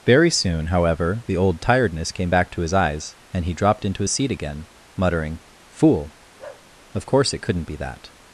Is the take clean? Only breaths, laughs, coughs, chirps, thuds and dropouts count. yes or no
no